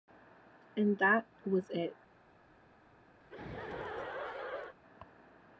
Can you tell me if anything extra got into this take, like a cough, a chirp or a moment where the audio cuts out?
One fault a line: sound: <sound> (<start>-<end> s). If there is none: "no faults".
sound: laugh (3.2-4.8 s)